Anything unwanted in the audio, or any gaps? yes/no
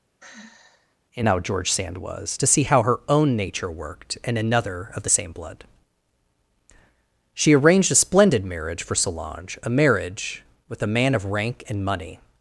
yes